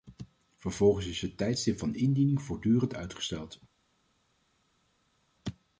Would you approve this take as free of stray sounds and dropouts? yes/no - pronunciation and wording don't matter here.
yes